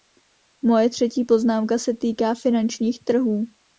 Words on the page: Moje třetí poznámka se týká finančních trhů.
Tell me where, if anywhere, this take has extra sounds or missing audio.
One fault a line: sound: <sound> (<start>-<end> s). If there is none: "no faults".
no faults